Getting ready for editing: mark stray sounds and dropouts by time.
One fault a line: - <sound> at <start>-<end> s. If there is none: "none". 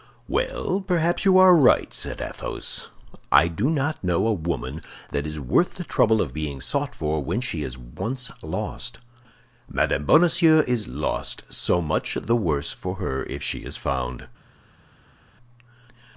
none